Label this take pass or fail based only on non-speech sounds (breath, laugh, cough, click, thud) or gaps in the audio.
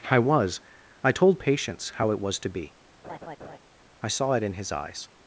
fail